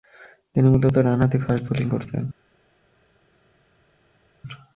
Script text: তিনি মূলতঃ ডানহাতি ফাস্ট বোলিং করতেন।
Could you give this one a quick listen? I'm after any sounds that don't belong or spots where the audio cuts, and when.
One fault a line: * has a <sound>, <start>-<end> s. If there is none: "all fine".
all fine